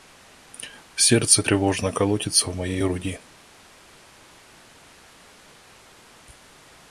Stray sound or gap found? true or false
false